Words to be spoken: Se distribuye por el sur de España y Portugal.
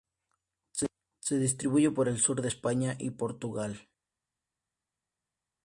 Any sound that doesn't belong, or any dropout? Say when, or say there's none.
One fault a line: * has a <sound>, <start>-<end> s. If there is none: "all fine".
all fine